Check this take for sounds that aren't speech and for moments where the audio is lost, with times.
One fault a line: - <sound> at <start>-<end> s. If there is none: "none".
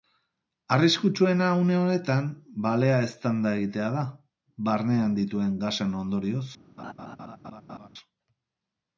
- laugh at 6.8-7.9 s